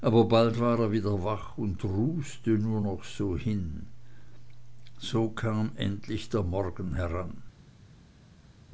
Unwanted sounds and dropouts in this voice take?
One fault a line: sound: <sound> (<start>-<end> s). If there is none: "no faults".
no faults